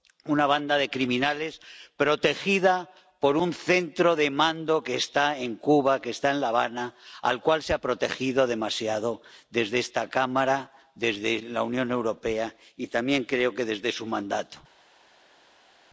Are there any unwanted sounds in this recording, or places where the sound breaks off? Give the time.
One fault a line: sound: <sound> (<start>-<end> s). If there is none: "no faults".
no faults